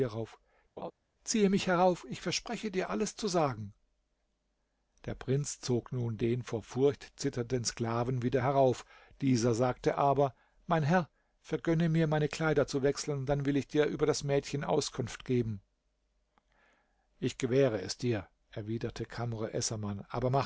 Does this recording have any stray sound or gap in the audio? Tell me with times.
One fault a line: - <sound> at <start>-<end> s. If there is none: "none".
- laugh at 0.8-0.9 s